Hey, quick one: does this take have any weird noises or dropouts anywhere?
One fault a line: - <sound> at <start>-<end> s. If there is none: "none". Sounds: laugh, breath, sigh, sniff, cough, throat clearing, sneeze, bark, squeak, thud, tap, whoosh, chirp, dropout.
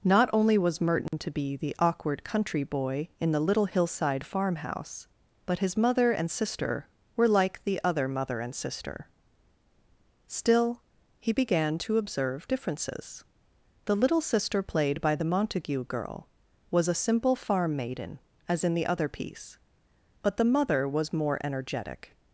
- dropout at 1.1-1.1 s